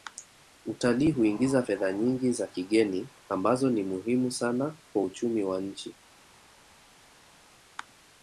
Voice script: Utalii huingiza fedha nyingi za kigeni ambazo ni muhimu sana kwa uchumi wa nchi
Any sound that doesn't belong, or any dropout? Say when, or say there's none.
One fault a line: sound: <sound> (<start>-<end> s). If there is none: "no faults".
no faults